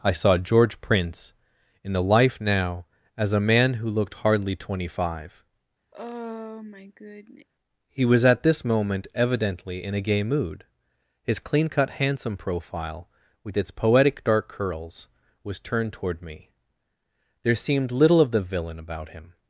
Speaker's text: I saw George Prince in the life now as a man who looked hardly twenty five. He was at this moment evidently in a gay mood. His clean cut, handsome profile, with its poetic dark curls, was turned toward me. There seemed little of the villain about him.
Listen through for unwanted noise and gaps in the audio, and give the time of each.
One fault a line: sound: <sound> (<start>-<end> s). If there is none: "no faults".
sound: sigh (5.9-7.5 s)